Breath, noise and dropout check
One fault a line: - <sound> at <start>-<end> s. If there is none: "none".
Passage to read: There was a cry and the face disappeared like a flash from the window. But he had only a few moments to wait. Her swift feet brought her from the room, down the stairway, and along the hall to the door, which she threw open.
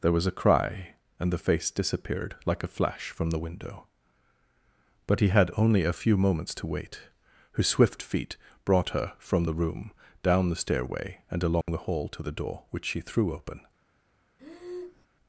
- dropout at 11.6-11.7 s
- breath at 14.4-15.1 s